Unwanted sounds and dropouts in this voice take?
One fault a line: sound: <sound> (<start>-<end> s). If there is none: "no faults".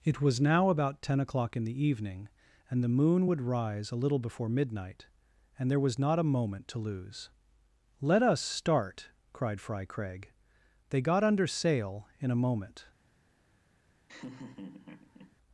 sound: laugh (14.1-15.4 s)